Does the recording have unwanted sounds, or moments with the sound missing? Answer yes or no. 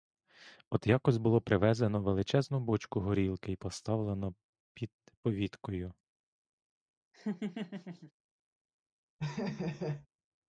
yes